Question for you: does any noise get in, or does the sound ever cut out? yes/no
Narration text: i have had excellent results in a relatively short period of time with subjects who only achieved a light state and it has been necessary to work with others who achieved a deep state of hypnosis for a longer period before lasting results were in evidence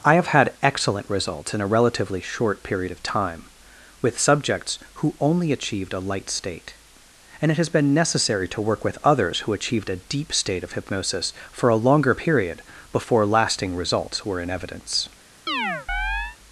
yes